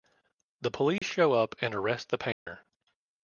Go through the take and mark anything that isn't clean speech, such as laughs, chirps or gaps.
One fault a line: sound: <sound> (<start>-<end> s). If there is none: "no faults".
sound: dropout (1.0-1.0 s)
sound: dropout (2.3-2.5 s)